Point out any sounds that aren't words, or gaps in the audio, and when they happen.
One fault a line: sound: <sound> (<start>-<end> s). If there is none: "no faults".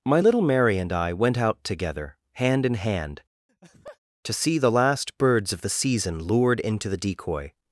sound: laugh (3.5-4.0 s)